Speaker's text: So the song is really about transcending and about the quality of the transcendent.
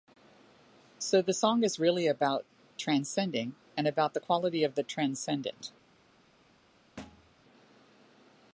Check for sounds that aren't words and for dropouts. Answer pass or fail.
fail